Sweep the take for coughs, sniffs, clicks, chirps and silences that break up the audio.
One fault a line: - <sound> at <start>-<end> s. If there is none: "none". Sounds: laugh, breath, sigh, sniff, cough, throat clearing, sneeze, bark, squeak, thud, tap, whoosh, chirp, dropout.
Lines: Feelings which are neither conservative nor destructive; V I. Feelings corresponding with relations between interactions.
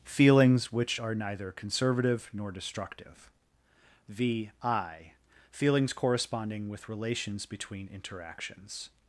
none